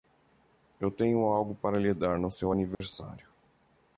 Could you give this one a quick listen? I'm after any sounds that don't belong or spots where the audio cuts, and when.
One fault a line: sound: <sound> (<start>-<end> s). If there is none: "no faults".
sound: dropout (2.7-2.8 s)